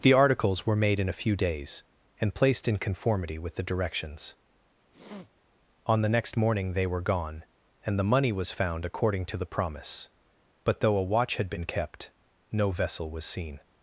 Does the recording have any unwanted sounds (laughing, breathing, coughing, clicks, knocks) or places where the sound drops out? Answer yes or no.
yes